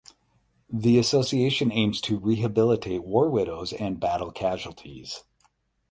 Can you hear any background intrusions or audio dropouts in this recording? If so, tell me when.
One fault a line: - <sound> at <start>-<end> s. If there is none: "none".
none